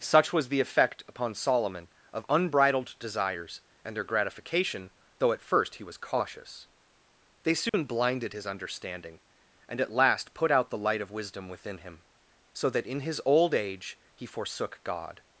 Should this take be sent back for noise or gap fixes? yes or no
yes